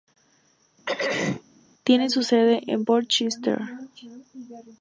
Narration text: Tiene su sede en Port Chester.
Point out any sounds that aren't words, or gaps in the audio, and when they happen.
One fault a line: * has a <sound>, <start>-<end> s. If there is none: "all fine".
* has a throat clearing, 0.9-1.4 s